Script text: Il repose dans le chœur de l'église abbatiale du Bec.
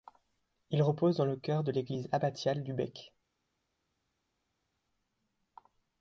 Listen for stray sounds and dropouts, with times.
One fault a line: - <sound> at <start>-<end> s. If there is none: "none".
none